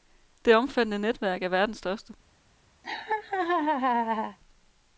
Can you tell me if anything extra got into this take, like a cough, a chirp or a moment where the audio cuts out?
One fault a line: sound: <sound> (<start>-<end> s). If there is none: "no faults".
sound: laugh (2.8-4.4 s)